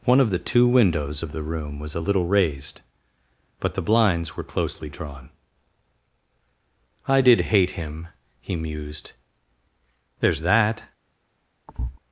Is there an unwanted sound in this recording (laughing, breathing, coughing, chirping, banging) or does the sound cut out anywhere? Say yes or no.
yes